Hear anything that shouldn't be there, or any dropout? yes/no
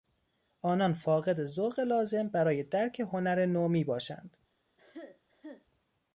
yes